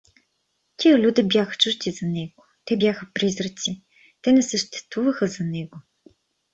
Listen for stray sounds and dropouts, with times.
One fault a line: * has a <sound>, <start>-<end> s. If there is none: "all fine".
all fine